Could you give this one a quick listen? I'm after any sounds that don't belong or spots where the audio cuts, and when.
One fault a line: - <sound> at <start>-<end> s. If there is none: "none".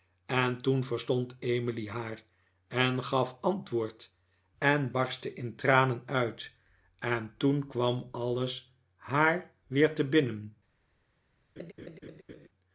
- laugh at 11.6-12.5 s